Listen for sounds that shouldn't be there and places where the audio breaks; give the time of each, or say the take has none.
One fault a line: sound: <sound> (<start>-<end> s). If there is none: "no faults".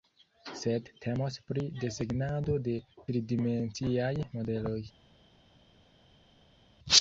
no faults